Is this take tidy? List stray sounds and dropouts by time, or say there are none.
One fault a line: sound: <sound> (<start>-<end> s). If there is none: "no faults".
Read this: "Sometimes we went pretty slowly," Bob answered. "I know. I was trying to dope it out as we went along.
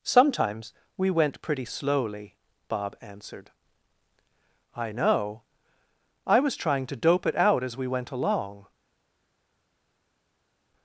no faults